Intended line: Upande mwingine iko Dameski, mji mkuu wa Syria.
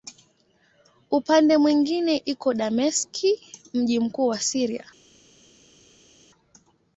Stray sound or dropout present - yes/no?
no